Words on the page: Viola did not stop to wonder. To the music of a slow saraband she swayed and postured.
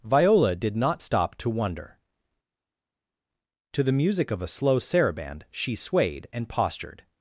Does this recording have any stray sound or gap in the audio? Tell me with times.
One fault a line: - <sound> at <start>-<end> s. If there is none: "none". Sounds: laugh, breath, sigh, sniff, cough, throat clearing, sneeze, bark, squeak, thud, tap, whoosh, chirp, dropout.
none